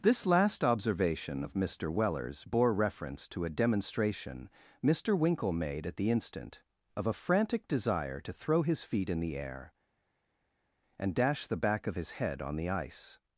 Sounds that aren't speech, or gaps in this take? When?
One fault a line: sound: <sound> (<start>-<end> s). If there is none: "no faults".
no faults